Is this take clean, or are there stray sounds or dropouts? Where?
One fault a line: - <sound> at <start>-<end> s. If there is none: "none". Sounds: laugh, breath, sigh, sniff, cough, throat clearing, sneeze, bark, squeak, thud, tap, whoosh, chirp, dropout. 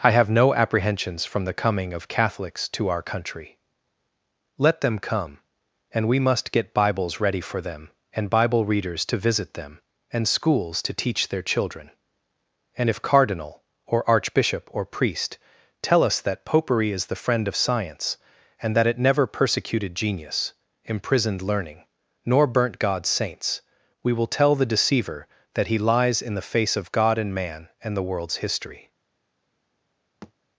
- thud at 30.2-30.3 s